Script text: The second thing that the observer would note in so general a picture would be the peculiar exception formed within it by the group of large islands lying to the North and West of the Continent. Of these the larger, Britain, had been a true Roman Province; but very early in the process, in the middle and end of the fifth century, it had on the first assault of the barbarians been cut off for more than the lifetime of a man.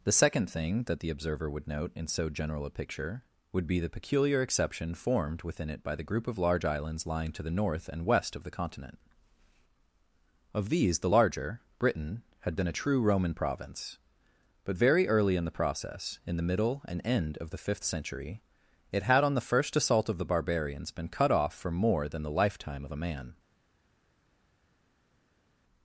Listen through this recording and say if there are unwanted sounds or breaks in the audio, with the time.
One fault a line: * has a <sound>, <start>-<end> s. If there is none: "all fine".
all fine